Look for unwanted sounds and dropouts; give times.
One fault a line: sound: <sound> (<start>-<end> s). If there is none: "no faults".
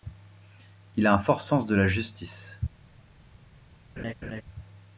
sound: laugh (4.0-4.4 s)